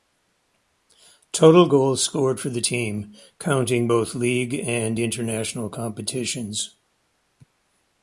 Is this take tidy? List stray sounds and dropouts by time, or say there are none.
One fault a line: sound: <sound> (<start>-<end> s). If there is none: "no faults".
no faults